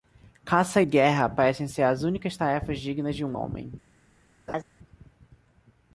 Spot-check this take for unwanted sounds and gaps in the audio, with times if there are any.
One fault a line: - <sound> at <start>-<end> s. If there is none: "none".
- laugh at 4.5-4.6 s